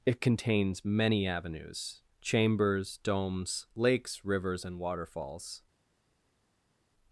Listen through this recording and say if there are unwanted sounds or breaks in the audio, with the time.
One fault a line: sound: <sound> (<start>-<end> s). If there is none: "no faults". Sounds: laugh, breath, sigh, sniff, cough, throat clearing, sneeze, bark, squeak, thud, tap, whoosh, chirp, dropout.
no faults